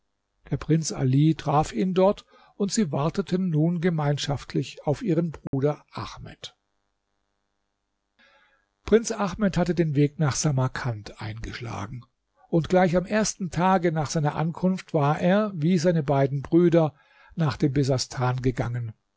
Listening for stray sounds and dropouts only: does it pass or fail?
fail